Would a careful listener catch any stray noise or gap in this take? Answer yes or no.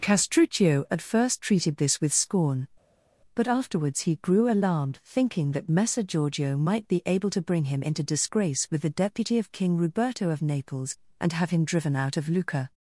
no